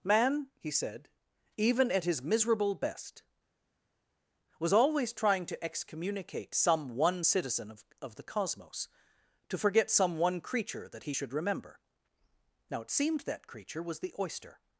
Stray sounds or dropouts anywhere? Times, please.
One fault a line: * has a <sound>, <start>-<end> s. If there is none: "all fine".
all fine